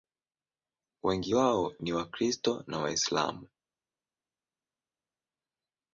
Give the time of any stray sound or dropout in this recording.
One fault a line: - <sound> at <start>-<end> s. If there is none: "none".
none